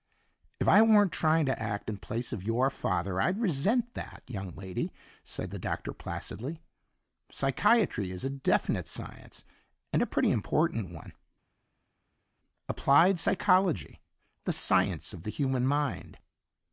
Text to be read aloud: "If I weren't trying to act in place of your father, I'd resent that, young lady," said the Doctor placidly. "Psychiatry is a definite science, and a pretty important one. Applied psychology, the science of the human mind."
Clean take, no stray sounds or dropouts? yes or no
yes